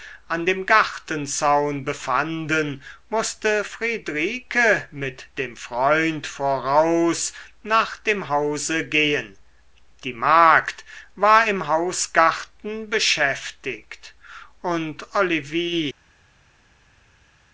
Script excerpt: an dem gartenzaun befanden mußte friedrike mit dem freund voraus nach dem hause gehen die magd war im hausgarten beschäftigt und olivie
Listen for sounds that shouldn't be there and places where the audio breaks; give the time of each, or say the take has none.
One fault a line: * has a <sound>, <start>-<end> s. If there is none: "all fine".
all fine